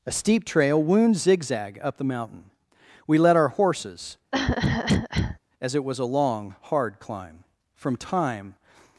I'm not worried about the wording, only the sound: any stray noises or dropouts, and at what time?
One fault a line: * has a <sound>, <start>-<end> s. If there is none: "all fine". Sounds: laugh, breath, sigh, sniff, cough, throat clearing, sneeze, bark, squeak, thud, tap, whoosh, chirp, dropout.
* has a cough, 4.3-5.4 s